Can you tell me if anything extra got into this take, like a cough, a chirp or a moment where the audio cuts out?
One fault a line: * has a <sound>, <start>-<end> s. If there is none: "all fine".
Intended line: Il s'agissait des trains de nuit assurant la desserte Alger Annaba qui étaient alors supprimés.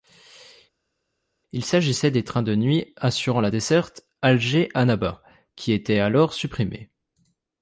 all fine